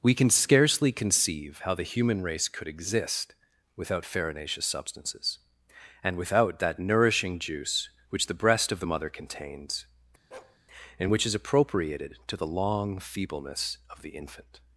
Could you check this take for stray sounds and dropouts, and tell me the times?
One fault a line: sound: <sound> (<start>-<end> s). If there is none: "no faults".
sound: bark (10.3-10.6 s)